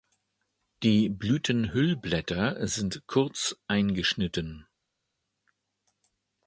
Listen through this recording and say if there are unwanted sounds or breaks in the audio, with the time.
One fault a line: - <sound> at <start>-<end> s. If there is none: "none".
none